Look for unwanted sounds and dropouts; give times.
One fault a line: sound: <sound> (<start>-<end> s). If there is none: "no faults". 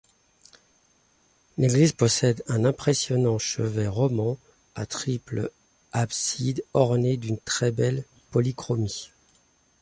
no faults